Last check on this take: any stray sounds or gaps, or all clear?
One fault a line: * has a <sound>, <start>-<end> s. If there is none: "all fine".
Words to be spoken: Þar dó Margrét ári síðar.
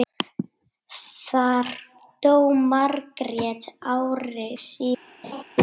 * has a laugh, 5.2-5.4 s